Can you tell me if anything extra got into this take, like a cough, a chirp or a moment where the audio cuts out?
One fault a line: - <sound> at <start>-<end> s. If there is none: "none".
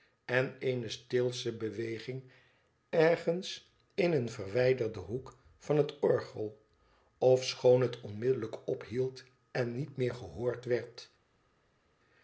none